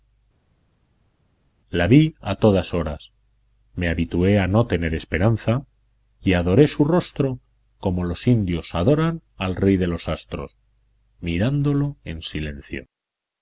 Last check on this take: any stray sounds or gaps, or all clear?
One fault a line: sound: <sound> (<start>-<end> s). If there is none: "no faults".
no faults